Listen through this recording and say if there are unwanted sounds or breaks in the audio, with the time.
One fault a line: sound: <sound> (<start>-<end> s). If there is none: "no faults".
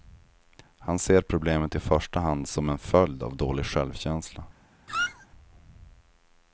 sound: squeak (4.9-5.3 s)